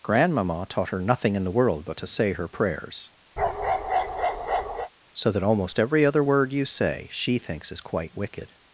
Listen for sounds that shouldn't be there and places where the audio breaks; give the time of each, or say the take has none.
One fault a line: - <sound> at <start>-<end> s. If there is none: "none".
- bark at 3.4-4.9 s